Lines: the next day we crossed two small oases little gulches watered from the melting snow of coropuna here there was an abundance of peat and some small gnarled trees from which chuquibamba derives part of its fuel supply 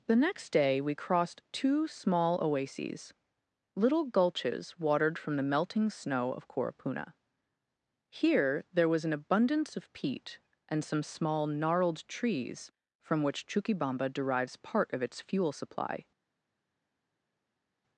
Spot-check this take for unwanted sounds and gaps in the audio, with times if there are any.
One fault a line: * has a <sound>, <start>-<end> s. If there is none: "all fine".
all fine